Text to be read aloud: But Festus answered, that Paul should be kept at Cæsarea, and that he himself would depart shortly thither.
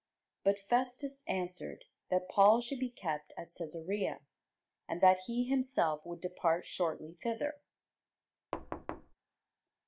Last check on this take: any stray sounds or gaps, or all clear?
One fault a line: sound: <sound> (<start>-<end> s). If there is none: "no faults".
sound: thud (8.5-9.1 s)